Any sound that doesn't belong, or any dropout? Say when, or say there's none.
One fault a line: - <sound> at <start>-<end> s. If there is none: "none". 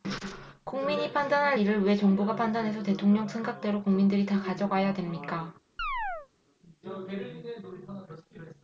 - chirp at 5.8-6.3 s